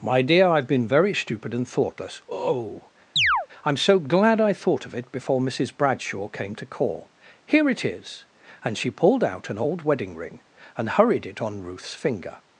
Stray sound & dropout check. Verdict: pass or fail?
fail